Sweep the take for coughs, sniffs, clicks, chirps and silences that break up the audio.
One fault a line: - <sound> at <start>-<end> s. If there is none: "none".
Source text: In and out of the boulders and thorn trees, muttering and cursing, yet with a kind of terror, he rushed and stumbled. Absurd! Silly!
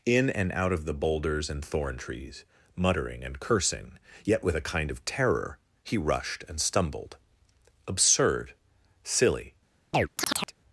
- chirp at 9.9-10.5 s